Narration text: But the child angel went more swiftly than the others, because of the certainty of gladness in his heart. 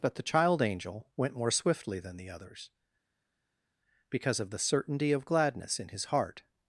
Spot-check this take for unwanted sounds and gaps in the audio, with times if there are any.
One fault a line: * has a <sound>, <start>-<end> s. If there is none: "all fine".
all fine